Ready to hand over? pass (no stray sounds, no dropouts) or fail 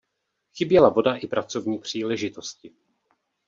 pass